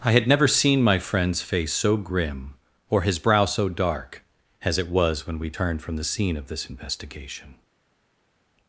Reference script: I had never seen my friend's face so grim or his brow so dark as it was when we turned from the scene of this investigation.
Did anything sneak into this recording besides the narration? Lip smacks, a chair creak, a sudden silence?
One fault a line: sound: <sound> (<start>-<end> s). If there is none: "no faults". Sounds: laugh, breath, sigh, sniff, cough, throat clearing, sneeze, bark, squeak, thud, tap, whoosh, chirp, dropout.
no faults